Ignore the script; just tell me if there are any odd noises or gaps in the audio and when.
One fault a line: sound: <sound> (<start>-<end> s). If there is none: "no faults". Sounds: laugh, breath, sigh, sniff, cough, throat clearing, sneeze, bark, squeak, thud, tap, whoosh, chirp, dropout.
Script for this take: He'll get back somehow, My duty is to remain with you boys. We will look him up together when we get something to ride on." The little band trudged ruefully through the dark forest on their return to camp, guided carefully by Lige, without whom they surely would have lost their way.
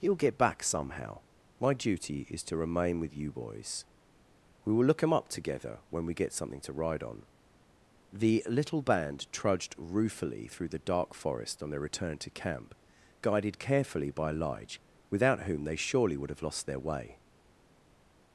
no faults